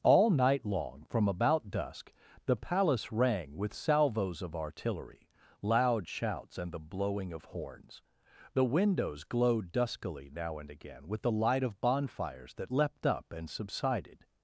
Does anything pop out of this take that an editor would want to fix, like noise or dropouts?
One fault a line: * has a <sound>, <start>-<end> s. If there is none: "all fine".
all fine